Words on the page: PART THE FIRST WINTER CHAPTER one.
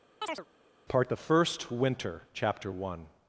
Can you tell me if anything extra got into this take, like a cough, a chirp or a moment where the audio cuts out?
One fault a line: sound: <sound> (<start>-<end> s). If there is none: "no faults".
sound: chirp (0.2-0.5 s)